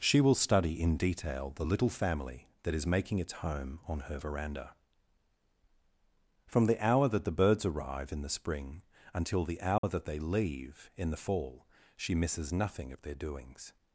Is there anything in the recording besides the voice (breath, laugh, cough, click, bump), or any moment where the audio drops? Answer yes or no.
yes